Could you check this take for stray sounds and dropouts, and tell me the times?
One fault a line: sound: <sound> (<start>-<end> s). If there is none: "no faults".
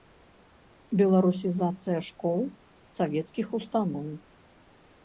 no faults